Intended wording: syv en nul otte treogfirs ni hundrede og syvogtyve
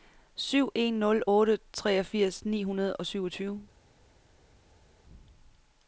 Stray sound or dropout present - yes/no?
no